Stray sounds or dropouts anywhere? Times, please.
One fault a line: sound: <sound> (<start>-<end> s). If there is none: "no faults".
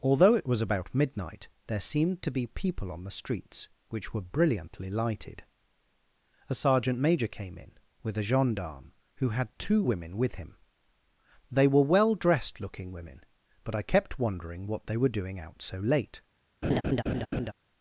sound: laugh (16.6-17.5 s)